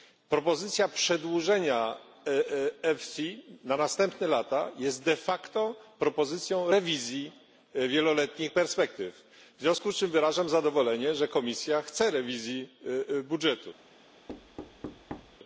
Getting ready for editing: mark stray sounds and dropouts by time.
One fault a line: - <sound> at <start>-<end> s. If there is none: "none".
- thud at 14.3-15.4 s